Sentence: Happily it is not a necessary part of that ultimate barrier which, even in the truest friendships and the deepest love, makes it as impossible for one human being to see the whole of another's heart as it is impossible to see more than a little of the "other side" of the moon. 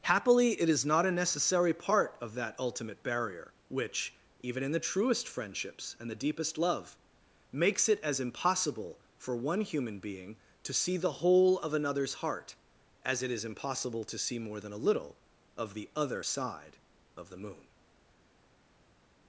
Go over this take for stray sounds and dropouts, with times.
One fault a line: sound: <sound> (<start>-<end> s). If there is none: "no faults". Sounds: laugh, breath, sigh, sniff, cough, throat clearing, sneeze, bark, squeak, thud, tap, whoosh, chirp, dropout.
no faults